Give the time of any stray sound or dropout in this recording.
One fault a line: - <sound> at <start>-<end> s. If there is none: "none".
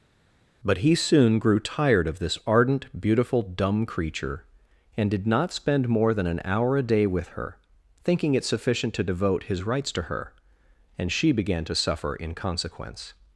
none